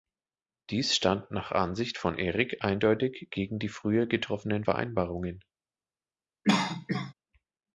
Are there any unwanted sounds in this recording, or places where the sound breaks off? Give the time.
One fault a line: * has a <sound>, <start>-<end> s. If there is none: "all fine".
* has a cough, 6.4-7.1 s